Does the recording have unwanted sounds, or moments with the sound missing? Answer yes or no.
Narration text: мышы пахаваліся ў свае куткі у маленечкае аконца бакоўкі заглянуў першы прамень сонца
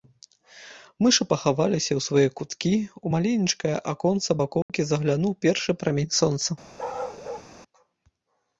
yes